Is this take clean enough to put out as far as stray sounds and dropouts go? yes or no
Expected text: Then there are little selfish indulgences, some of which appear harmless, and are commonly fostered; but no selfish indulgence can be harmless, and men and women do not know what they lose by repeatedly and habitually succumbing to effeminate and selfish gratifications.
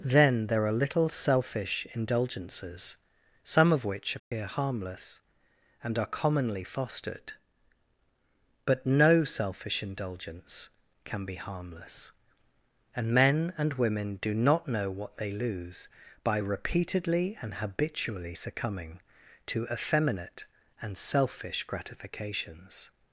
no